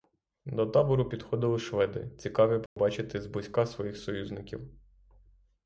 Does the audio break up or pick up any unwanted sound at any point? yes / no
yes